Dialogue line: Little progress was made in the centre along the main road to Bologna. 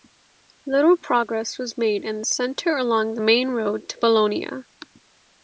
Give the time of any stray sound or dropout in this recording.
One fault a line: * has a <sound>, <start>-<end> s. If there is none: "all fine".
all fine